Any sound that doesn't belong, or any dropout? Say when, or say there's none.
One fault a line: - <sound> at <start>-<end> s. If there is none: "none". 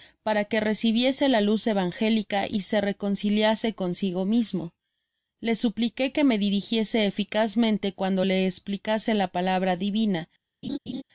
- laugh at 10.6-11.0 s